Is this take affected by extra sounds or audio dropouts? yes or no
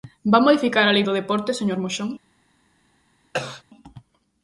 yes